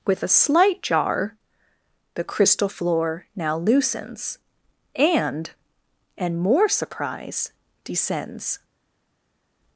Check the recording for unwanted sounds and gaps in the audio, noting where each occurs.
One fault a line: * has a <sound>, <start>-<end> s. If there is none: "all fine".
all fine